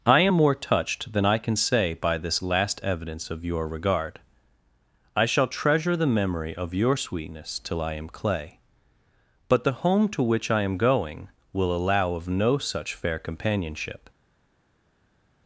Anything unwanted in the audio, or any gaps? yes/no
no